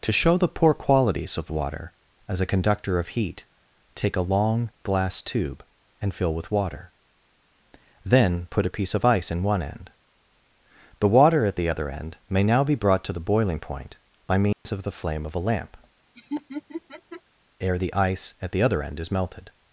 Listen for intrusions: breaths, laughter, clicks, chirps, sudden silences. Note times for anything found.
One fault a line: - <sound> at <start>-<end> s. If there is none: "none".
- dropout at 14.5-14.7 s
- laugh at 16.1-17.2 s